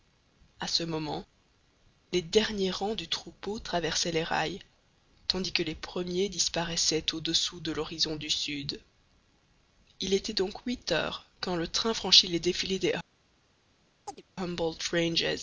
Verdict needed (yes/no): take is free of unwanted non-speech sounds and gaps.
no